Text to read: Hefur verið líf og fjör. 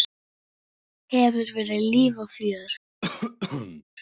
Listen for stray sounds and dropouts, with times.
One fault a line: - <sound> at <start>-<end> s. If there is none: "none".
- cough at 3.0-3.8 s